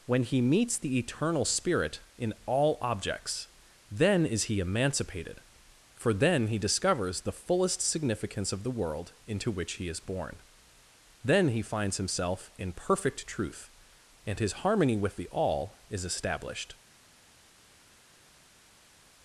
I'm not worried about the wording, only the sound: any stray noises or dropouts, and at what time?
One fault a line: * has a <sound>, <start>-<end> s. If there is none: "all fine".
all fine